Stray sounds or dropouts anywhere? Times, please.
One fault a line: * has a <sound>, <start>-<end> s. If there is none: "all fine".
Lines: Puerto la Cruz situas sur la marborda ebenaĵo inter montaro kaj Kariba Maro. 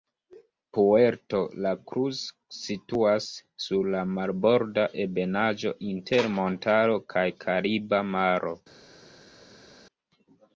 all fine